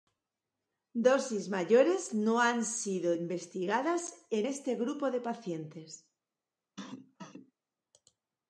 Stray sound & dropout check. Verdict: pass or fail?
fail